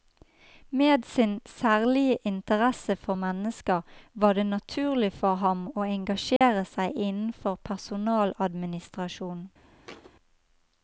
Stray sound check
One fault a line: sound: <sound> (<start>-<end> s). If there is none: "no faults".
sound: dropout (6.4-6.4 s)
sound: thud (9.8-10.1 s)